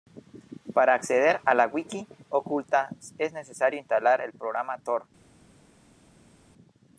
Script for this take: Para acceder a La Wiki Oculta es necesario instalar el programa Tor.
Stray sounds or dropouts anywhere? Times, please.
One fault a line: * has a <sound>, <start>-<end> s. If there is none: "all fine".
all fine